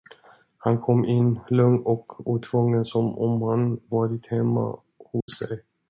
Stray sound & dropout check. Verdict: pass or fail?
fail